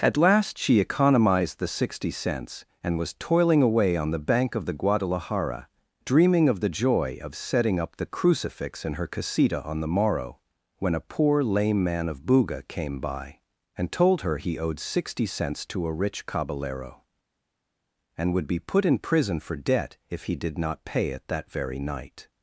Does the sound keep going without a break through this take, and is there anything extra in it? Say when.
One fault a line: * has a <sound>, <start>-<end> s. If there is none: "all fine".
all fine